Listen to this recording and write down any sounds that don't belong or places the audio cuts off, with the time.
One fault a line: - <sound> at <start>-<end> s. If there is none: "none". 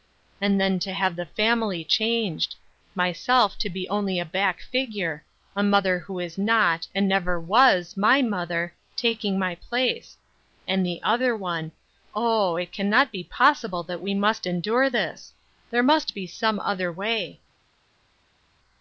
none